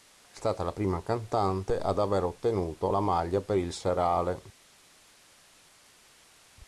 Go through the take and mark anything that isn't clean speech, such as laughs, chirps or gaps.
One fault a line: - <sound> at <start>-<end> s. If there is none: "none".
none